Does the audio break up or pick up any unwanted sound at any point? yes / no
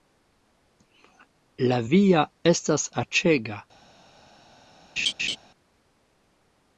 yes